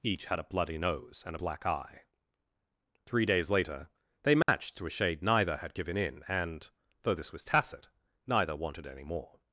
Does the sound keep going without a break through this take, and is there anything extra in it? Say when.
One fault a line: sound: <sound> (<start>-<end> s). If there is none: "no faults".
sound: dropout (4.4-4.5 s)